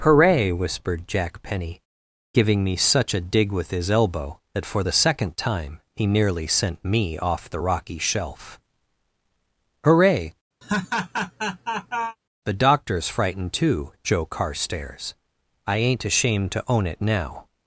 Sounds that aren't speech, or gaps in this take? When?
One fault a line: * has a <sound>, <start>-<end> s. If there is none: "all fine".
* has a laugh, 10.6-12.2 s